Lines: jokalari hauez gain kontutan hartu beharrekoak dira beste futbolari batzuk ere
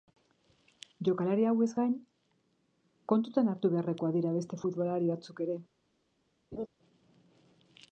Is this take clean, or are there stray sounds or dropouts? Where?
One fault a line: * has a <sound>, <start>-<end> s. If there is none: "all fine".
* has a laugh, 6.5-6.7 s